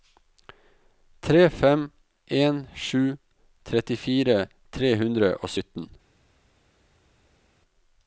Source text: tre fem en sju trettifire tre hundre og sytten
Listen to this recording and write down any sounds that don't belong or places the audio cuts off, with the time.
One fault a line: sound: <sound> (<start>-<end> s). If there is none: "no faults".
no faults